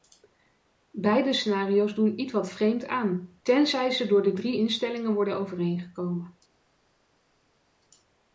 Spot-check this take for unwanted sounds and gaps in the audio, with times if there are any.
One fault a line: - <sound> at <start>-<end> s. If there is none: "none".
none